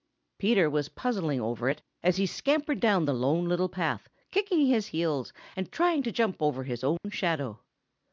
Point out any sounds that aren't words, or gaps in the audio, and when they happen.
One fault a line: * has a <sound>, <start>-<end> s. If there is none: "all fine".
* has a dropout, 7.0-7.0 s